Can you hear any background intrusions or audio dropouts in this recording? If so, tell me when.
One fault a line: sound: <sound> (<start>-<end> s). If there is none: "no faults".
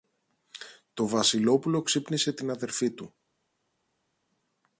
no faults